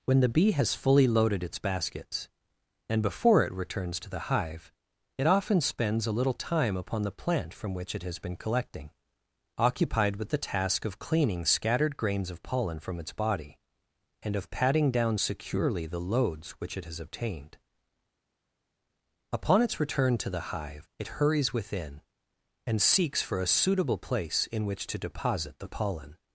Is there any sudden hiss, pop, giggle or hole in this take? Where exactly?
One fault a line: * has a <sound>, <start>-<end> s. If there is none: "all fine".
all fine